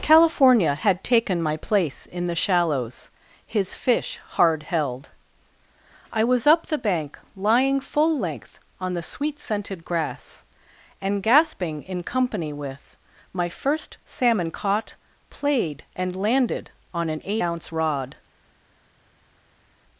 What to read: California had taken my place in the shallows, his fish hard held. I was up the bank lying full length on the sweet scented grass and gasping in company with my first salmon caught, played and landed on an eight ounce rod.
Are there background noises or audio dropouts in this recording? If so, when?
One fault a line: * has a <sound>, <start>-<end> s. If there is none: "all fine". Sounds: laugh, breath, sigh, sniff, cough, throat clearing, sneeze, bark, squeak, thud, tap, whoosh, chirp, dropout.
all fine